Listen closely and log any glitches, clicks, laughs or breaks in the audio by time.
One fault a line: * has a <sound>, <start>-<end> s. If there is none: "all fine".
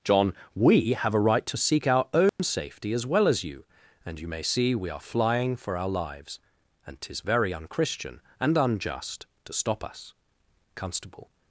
* has a dropout, 2.3-2.4 s